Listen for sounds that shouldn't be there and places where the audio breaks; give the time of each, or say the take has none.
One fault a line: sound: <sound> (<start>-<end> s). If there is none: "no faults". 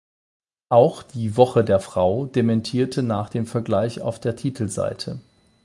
no faults